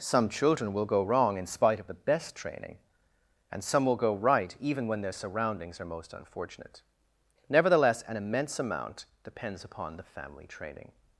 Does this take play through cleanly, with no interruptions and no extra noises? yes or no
yes